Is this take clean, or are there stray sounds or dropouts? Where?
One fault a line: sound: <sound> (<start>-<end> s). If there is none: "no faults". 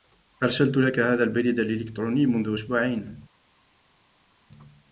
no faults